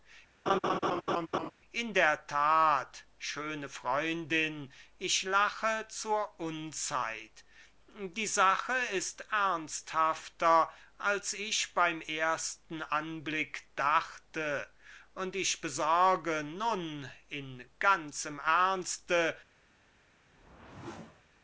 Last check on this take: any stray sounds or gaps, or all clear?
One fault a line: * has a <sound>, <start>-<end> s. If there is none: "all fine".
* has a laugh, 0.5-1.5 s
* has a whoosh, 20.2-21.2 s